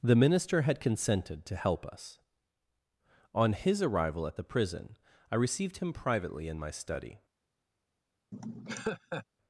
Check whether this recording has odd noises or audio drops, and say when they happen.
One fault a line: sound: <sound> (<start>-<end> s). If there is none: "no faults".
sound: laugh (8.3-9.2 s)